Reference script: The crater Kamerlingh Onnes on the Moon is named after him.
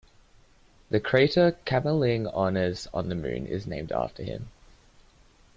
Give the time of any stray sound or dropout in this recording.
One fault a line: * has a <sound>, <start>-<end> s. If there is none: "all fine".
all fine